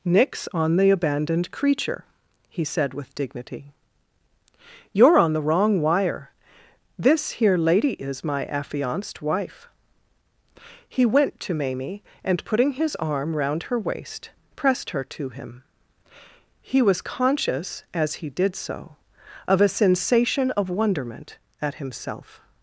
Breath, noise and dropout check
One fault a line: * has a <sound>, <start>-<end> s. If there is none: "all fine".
all fine